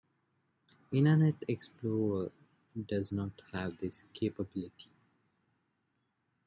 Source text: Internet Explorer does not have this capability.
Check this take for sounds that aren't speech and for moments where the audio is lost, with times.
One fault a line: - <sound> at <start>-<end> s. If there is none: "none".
none